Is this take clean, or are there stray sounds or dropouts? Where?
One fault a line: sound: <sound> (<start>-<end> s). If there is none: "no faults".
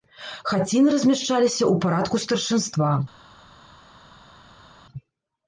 no faults